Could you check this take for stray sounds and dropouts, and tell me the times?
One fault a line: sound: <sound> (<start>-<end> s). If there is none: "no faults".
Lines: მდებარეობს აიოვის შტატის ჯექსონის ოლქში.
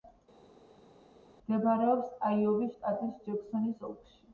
no faults